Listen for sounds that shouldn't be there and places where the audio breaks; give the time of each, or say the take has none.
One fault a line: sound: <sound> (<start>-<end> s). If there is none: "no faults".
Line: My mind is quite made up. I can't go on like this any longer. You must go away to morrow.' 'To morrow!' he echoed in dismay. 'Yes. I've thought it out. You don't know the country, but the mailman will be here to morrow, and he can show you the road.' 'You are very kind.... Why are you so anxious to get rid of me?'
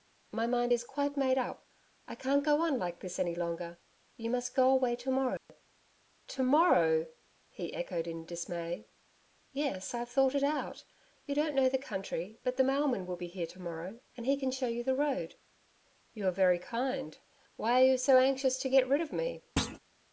sound: dropout (5.4-5.5 s)
sound: thud (19.6-19.8 s)